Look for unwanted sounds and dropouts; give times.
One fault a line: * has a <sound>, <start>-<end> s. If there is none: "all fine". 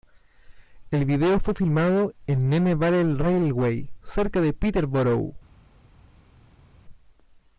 all fine